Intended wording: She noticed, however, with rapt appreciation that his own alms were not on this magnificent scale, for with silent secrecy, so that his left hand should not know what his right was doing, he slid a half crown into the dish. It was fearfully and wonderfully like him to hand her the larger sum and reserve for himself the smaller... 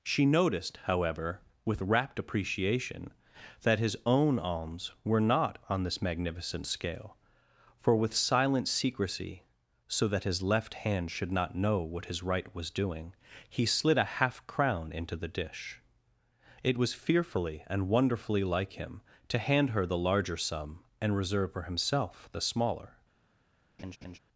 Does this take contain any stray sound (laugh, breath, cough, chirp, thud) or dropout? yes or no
yes